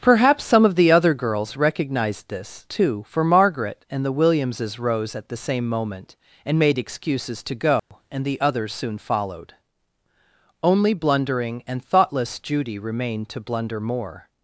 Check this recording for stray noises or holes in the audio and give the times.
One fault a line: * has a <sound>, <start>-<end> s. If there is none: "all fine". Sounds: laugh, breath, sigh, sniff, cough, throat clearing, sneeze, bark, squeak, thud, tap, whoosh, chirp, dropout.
* has a dropout, 7.8-7.9 s